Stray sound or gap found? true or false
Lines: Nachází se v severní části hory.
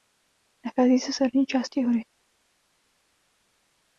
false